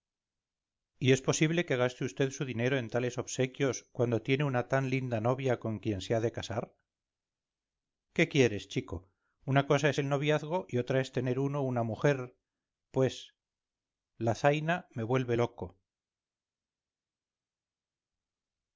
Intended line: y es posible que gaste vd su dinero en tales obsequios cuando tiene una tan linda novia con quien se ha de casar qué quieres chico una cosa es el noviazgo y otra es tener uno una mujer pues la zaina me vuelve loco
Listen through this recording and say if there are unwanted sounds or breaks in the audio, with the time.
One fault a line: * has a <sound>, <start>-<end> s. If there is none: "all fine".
all fine